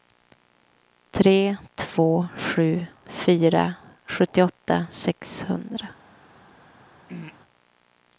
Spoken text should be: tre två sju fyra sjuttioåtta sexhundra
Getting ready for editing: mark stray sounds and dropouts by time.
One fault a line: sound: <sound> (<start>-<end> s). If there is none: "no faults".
sound: throat clearing (7.1-7.4 s)